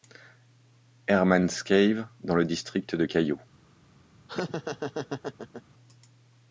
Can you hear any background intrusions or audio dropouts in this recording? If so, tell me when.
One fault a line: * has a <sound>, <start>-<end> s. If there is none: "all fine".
* has a laugh, 4.3-5.6 s